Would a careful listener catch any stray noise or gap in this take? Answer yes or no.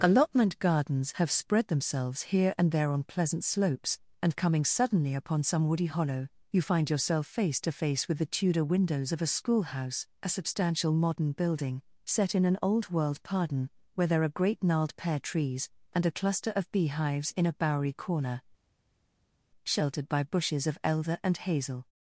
no